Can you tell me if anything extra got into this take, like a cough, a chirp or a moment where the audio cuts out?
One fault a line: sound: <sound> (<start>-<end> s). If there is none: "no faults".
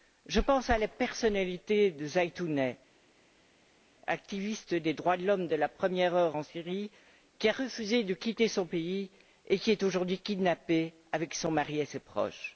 no faults